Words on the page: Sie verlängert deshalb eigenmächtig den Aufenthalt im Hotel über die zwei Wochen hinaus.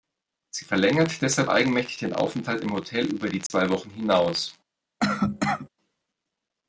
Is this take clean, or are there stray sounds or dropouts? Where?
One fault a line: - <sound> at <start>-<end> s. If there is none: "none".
- dropout at 3.5-3.5 s
- cough at 5.0-5.7 s